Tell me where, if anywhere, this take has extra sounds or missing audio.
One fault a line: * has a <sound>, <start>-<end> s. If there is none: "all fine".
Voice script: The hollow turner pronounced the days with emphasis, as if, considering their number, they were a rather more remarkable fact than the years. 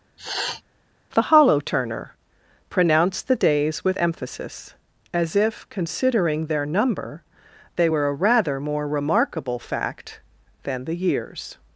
* has a sniff, 0.2-0.6 s